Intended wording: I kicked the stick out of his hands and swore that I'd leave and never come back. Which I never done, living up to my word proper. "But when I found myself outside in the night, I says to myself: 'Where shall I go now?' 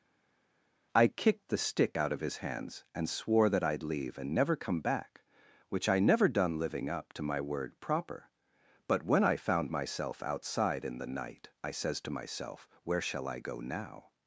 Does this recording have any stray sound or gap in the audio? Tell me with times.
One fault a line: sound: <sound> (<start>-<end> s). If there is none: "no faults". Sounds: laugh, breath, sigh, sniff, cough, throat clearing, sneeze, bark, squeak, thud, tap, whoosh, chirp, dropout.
no faults